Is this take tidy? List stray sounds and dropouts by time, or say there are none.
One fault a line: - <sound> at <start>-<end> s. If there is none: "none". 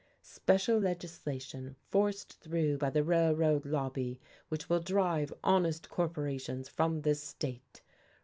none